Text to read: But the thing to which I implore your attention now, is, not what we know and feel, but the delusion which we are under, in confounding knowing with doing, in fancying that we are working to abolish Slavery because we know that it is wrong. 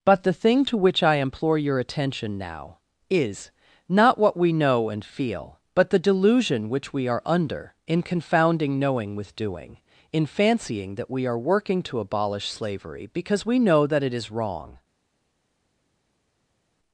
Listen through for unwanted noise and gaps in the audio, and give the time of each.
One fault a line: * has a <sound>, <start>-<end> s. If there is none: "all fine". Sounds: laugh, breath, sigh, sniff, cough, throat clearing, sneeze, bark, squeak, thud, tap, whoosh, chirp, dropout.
all fine